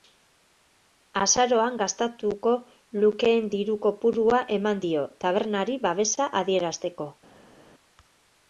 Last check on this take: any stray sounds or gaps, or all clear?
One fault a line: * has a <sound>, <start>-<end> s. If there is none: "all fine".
all fine